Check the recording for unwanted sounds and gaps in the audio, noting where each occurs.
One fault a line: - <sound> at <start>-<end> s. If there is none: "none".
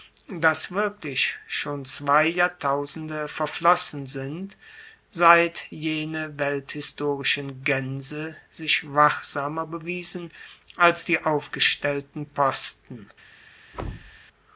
- thud at 13.7-14.2 s